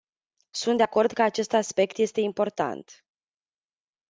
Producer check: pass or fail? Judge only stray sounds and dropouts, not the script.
pass